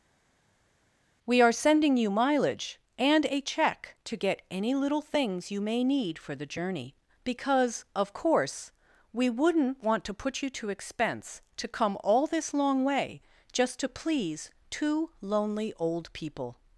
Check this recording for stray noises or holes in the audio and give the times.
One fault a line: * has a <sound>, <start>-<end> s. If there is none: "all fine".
all fine